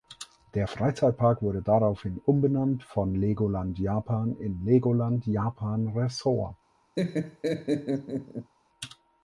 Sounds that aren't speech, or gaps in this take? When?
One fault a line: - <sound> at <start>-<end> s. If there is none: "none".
- laugh at 7.0-8.5 s